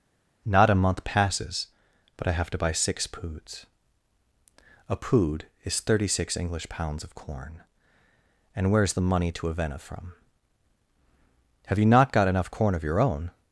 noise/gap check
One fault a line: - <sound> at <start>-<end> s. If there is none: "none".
none